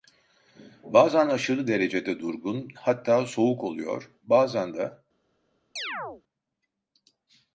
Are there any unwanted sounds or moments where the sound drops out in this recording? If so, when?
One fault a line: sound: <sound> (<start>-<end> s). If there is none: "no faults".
sound: chirp (5.8-6.2 s)